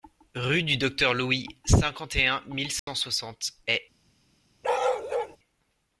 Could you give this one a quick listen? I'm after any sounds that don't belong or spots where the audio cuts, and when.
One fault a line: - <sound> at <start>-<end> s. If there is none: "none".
- dropout at 2.8-2.9 s
- bark at 4.6-5.4 s